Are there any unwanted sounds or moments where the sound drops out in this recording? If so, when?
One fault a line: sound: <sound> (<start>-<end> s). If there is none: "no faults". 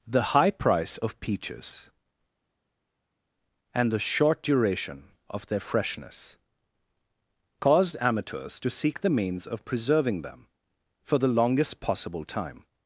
no faults